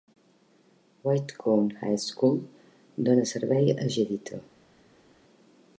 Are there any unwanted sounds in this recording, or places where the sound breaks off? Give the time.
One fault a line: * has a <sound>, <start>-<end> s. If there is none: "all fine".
all fine